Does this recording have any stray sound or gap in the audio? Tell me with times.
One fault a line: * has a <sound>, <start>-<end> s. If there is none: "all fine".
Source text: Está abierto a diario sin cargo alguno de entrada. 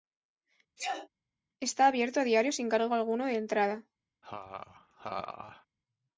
* has a sneeze, 0.8-1.1 s
* has a laugh, 4.2-5.7 s